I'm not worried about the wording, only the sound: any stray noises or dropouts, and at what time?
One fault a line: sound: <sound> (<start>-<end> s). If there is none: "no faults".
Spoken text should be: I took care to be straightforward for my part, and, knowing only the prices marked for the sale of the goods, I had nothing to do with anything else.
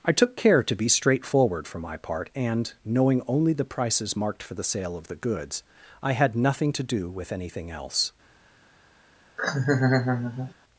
sound: laugh (9.4-10.5 s)